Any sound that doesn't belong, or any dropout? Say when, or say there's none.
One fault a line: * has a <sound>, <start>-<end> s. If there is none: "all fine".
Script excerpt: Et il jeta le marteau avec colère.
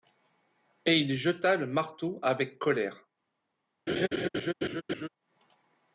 * has a laugh, 3.9-5.1 s